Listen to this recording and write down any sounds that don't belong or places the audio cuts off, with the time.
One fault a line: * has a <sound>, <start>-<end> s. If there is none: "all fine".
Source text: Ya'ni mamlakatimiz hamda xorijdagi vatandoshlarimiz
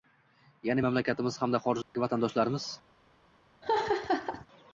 * has a dropout, 1.8-1.9 s
* has a laugh, 3.6-4.5 s